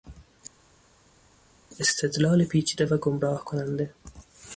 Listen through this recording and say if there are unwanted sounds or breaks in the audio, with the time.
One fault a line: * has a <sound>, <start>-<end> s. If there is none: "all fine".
all fine